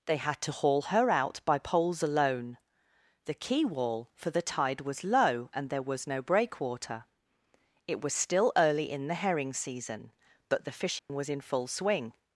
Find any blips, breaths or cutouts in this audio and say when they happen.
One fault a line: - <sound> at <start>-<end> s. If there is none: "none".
- dropout at 11.0-11.1 s